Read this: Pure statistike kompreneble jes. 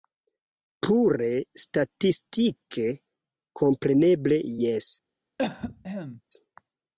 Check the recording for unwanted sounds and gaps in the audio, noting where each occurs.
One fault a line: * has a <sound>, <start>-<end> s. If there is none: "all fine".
* has a cough, 5.4-6.2 s